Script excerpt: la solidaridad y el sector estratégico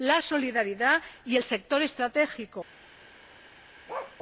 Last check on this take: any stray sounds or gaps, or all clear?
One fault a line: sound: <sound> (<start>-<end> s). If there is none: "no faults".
sound: bark (3.9-4.2 s)